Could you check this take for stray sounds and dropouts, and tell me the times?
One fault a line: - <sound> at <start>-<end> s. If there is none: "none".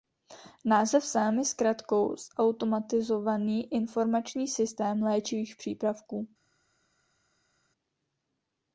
none